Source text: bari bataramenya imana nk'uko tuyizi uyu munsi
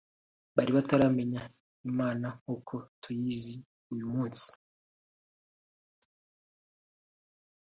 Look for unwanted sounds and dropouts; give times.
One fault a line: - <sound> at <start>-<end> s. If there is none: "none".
none